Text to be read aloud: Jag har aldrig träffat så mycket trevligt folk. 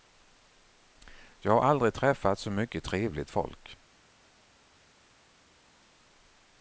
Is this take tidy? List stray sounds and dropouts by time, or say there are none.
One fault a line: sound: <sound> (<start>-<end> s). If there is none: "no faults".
no faults